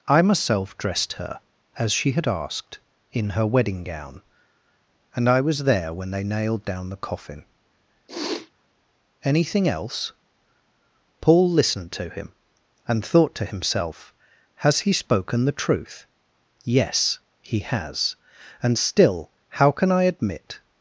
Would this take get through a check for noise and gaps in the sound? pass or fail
fail